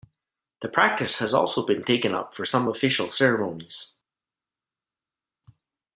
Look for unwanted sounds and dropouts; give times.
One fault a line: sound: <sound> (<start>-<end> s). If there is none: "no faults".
no faults